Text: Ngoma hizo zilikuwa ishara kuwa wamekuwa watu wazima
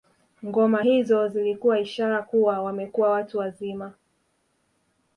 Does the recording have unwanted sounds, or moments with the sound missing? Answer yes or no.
no